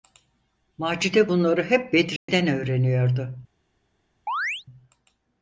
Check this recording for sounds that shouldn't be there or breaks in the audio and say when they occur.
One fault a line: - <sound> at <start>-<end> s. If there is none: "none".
- dropout at 2.2-2.3 s
- chirp at 4.3-4.6 s